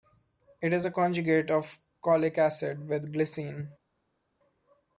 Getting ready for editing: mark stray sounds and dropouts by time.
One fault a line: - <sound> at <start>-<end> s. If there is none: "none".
none